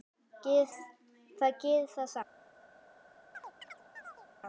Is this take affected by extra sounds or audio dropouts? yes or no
yes